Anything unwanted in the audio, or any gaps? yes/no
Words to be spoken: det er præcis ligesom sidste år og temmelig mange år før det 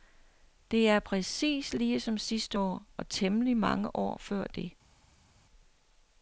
no